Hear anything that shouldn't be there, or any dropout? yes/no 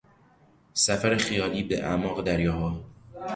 no